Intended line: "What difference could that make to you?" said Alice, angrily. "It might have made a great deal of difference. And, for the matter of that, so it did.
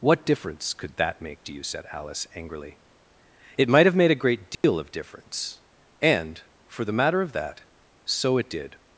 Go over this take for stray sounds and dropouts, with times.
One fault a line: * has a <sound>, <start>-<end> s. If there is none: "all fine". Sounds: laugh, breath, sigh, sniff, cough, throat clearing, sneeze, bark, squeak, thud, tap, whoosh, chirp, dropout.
* has a dropout, 4.5-4.6 s